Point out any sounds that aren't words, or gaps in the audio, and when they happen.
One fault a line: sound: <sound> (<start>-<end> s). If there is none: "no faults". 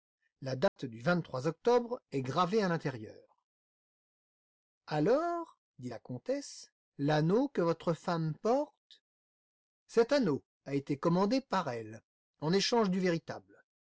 sound: dropout (0.7-0.8 s)